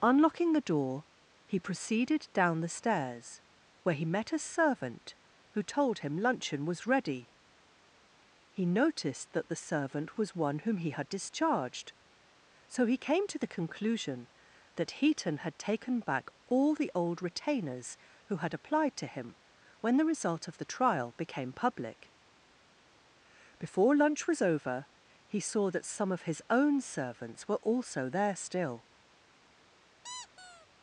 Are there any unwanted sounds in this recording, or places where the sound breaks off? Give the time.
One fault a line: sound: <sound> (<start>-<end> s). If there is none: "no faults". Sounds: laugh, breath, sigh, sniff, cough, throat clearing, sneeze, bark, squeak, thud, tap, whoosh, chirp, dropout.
sound: squeak (30.0-30.7 s)